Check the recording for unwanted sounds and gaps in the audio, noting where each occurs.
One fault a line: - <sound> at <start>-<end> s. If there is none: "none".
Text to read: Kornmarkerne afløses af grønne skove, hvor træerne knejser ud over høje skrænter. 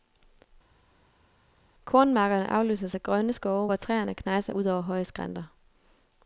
none